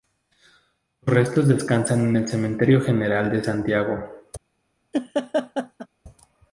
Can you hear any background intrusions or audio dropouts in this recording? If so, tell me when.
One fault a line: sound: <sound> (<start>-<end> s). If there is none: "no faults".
sound: laugh (4.9-5.9 s)